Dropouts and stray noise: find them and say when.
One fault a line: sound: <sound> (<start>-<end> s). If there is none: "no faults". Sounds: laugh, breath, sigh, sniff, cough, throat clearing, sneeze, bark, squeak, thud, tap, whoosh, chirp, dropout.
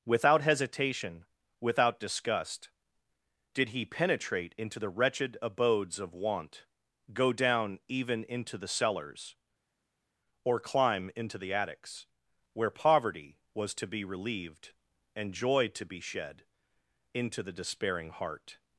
no faults